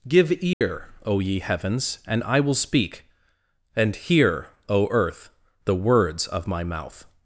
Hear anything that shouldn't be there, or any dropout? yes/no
yes